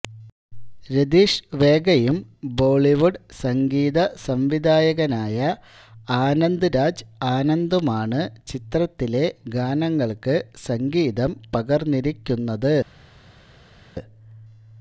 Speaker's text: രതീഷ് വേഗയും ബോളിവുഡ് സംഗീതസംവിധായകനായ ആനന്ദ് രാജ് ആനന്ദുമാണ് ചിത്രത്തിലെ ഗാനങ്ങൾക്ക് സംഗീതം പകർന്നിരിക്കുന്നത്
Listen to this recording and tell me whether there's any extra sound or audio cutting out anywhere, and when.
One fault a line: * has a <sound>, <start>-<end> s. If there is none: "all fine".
all fine